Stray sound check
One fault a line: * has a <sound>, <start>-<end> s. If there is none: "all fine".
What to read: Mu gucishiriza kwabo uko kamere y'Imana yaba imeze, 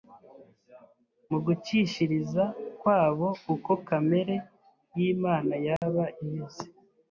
* has a dropout, 5.8-5.8 s